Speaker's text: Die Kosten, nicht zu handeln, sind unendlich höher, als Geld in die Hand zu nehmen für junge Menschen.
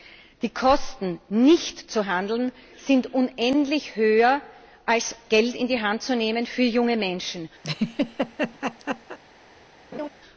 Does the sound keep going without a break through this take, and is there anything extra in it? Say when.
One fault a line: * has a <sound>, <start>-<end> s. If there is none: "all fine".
* has a laugh, 7.6-9.2 s
* has a laugh, 9.9-10.1 s